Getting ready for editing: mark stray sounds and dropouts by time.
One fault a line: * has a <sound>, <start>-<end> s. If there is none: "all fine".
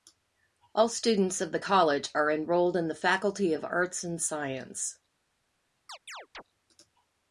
* has a chirp, 5.9-6.4 s